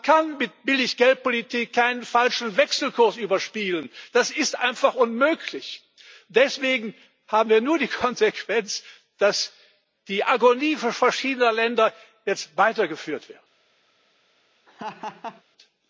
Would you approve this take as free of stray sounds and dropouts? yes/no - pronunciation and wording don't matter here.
no